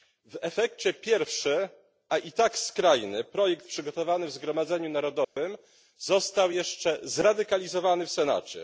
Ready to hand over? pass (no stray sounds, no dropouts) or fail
fail